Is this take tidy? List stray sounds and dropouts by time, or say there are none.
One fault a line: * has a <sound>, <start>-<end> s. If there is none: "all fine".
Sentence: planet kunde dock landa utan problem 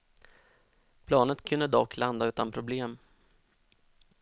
all fine